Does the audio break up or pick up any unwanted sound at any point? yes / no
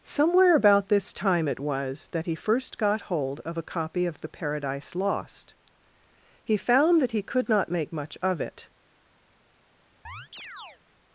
yes